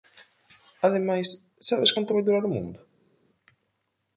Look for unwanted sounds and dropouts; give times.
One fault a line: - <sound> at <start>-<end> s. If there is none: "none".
none